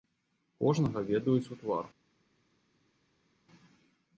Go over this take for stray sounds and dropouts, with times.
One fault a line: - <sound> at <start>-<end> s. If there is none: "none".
none